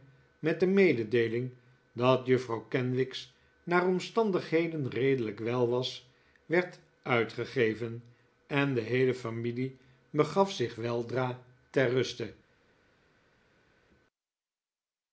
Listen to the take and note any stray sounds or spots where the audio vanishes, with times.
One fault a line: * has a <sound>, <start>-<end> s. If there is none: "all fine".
all fine